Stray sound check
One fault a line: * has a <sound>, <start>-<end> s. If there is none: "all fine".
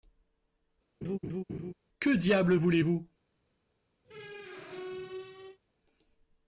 * has a laugh, 1.0-1.7 s
* has a squeak, 4.0-5.6 s